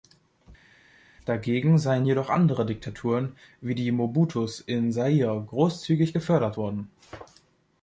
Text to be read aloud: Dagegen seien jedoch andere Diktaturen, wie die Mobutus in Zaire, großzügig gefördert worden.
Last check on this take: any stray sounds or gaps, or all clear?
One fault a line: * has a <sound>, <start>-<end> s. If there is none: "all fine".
all fine